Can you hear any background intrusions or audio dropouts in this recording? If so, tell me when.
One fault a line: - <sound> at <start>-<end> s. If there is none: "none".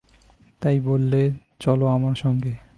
none